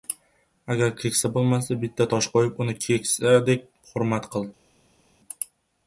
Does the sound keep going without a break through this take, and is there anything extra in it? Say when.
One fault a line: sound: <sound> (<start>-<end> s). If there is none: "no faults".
no faults